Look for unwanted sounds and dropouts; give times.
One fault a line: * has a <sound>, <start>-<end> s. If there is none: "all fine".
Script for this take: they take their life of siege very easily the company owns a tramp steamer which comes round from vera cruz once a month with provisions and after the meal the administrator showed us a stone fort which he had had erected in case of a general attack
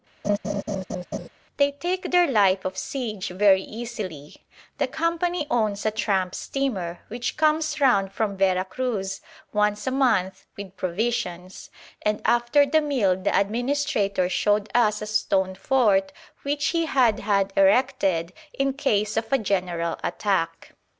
* has a laugh, 0.2-1.3 s